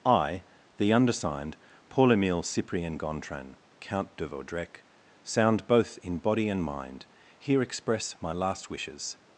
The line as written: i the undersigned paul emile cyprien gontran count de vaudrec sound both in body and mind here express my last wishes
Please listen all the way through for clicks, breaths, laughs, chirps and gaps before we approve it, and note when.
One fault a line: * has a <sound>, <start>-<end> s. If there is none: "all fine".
all fine